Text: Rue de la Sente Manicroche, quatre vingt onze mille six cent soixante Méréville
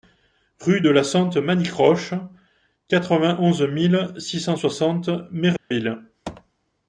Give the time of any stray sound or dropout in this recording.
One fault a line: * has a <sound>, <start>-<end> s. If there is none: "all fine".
* has a dropout, 5.6-5.7 s